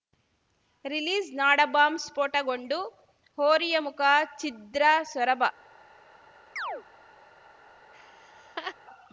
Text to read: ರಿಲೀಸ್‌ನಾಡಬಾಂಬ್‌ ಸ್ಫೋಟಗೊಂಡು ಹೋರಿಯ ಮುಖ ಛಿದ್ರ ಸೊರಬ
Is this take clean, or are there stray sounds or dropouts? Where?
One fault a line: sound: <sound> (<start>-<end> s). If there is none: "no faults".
sound: chirp (6.6-6.8 s)
sound: laugh (7.9-8.7 s)